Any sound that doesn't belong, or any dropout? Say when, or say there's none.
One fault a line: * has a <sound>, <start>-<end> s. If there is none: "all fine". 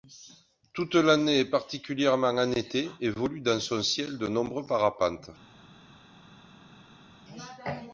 all fine